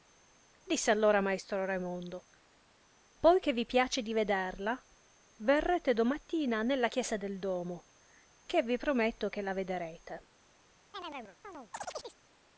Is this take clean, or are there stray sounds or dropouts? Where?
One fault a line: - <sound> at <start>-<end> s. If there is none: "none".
- chirp at 10.9-12.2 s